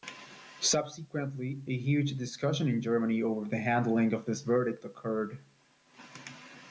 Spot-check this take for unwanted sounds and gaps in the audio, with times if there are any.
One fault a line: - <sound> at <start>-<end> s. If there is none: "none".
none